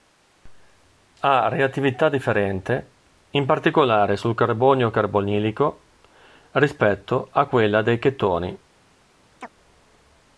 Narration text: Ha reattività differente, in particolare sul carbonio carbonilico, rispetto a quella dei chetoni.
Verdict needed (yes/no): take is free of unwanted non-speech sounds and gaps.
no